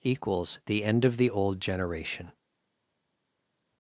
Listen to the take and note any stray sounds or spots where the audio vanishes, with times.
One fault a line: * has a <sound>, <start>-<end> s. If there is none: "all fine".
all fine